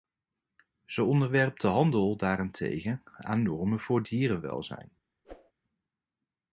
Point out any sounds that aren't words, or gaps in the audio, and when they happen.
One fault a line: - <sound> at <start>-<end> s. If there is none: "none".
- whoosh at 5.2-5.5 s